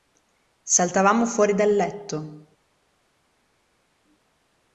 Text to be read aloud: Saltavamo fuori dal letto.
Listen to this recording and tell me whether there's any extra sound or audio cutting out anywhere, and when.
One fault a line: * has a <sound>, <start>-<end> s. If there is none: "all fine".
all fine